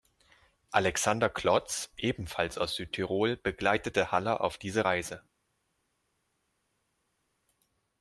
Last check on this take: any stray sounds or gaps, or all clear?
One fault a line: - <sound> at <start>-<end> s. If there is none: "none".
none